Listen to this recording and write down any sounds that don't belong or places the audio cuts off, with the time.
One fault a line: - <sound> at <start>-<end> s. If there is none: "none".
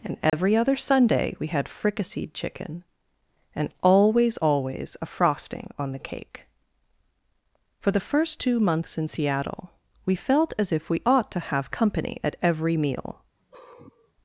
- dropout at 0.3-0.3 s
- sigh at 13.4-14.1 s